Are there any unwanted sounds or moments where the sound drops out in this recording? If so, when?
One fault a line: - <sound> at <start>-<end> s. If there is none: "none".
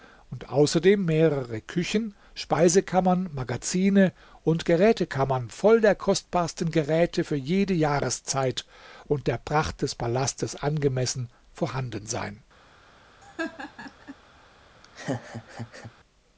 - laugh at 13.2-14.2 s
- laugh at 14.8-15.9 s